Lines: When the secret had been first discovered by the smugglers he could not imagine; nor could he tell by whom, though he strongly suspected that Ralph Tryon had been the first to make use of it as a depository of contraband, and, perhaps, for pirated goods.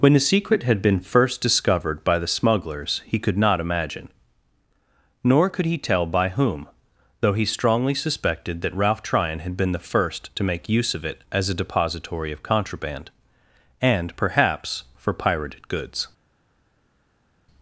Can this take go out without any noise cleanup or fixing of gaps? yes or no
yes